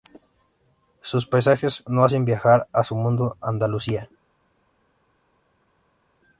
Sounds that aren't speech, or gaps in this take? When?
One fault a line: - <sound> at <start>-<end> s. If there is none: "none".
none